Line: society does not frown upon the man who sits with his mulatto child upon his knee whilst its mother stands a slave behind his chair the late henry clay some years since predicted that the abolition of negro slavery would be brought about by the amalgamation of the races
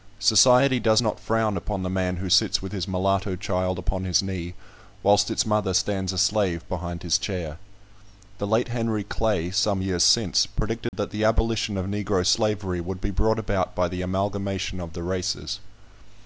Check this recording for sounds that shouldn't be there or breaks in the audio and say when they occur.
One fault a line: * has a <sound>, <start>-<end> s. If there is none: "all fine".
* has a dropout, 10.9-10.9 s